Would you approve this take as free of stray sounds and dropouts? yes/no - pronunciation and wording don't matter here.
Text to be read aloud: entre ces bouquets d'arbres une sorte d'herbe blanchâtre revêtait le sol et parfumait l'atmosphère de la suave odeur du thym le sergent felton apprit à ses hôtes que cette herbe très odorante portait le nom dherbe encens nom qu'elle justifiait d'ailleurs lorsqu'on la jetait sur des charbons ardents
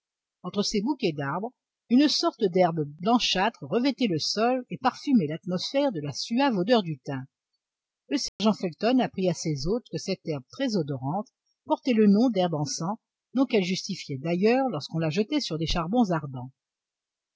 no